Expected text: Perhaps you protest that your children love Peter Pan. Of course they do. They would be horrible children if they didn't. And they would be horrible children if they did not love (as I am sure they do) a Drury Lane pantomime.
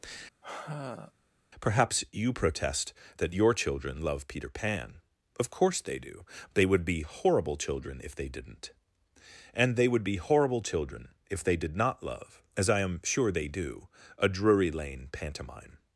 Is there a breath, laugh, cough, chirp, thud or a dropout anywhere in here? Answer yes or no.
yes